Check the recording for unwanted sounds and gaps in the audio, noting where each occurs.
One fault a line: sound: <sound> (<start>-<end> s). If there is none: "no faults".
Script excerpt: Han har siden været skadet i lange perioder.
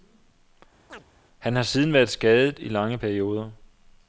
sound: chirp (0.9-1.0 s)